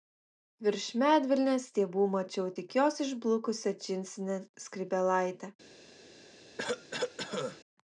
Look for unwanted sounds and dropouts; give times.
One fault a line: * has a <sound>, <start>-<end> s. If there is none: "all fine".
* has a cough, 6.6-7.6 s